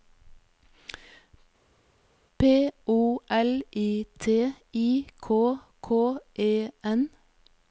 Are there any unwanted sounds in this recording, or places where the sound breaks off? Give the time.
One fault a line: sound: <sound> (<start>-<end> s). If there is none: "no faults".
no faults